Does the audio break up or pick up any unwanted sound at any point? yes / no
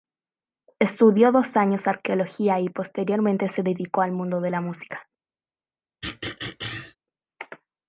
yes